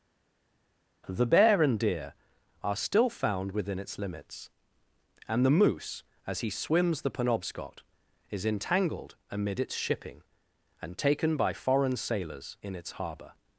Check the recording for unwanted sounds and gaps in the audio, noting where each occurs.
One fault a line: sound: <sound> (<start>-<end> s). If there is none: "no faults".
no faults